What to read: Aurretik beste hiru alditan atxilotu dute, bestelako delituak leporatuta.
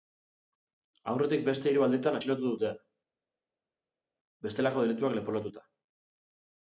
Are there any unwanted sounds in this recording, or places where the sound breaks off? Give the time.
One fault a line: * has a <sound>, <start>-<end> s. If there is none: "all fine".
all fine